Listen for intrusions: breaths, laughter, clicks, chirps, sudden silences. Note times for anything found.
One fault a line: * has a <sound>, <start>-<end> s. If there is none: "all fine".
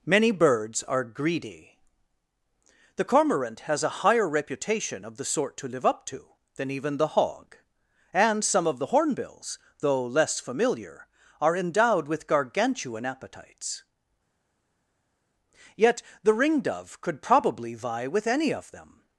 all fine